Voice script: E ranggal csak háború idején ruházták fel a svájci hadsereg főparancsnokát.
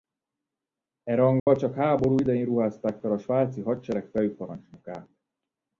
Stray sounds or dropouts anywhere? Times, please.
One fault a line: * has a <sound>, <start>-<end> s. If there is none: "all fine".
* has a dropout, 1.4-1.5 s